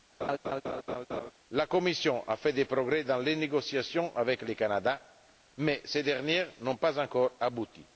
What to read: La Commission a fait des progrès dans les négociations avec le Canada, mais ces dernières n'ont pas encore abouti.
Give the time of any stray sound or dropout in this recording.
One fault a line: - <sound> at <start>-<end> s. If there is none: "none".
- laugh at 0.2-1.3 s